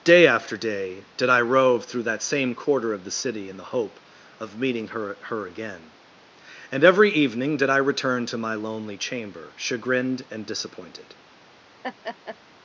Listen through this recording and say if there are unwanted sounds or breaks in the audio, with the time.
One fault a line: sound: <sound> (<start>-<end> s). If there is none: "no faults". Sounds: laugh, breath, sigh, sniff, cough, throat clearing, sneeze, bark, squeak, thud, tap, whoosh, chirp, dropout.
sound: laugh (11.8-12.4 s)